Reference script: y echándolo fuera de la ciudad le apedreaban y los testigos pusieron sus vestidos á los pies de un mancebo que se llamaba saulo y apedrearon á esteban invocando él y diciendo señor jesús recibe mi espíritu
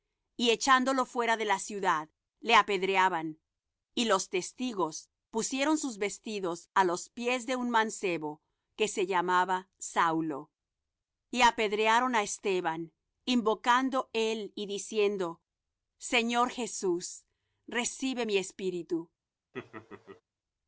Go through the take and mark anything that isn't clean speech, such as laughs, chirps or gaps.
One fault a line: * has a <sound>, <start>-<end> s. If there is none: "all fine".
* has a laugh, 19.5-20.2 s